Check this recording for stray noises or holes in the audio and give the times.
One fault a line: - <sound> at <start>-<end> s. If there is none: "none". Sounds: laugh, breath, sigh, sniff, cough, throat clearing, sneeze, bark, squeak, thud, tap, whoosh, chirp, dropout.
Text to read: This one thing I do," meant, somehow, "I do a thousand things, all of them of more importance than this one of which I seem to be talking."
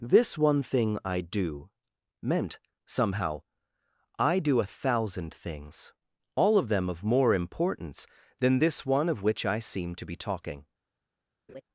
- laugh at 11.5-11.6 s